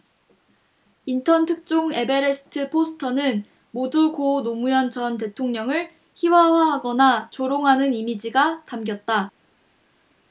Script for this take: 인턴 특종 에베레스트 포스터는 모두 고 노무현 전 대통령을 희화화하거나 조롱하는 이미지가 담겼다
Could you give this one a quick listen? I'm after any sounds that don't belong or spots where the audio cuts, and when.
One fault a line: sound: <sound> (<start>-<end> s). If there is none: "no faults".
no faults